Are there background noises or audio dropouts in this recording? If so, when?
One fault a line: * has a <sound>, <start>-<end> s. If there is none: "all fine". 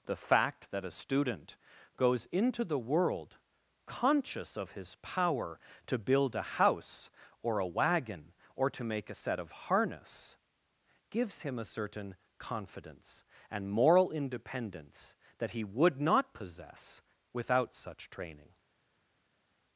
all fine